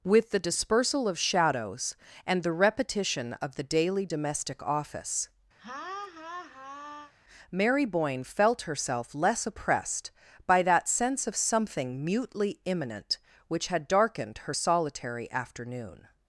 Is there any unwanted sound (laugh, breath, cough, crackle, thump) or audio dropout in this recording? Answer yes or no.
yes